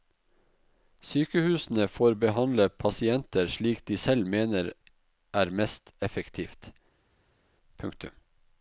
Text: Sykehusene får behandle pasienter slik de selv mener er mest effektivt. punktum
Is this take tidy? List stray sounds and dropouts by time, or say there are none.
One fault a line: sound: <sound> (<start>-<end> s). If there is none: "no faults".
no faults